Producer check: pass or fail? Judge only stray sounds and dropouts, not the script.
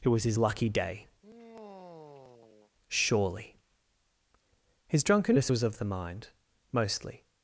fail